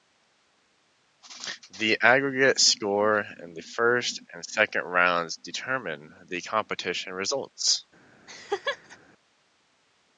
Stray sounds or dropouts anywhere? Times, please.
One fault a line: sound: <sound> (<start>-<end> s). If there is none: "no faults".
sound: laugh (8.3-9.0 s)